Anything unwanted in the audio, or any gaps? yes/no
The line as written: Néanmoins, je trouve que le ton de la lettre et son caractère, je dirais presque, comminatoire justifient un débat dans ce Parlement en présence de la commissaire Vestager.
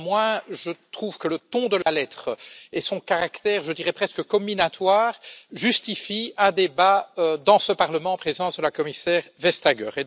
yes